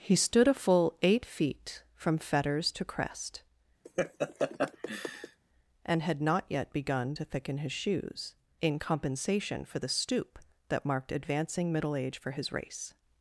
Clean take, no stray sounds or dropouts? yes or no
no